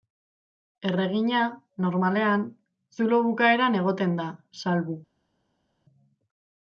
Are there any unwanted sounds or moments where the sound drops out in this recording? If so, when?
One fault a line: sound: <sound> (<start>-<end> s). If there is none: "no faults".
no faults